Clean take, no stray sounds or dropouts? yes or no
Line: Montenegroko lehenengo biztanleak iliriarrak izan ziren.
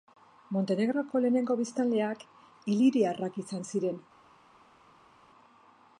yes